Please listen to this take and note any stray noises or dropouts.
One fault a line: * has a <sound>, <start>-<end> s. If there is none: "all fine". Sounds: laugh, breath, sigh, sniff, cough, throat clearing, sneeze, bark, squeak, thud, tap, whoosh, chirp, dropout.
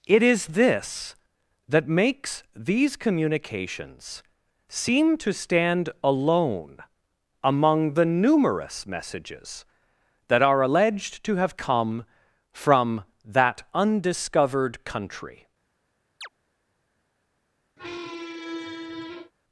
* has a chirp, 16.2-16.3 s
* has a squeak, 17.8-19.3 s